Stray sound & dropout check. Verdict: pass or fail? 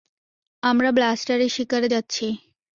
pass